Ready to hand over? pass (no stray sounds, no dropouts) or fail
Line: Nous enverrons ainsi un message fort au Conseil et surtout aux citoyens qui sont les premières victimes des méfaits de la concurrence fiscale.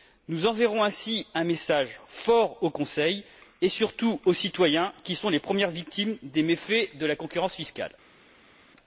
pass